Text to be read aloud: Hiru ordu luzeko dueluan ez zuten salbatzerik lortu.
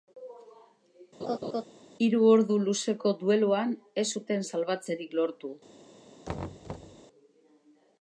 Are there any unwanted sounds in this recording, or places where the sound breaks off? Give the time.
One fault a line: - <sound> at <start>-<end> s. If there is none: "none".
- laugh at 1.2-1.6 s
- thud at 6.3-7.0 s